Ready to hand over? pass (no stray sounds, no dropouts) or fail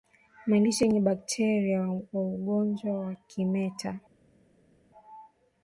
pass